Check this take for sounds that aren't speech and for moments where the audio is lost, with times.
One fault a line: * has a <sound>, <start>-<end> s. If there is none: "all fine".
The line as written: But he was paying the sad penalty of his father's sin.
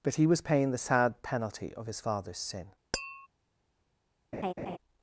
* has a tap, 2.9-3.3 s
* has a laugh, 4.3-4.8 s